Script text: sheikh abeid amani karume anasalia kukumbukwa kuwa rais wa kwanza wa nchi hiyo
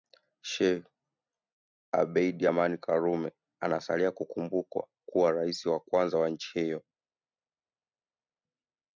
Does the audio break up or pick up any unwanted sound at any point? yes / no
no